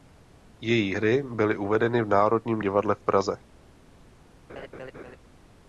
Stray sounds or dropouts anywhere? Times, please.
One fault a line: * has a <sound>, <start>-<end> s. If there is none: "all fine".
* has a laugh, 4.5-5.2 s